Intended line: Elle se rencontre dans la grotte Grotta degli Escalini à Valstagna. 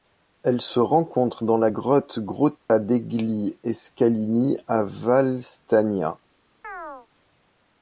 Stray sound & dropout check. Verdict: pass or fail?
fail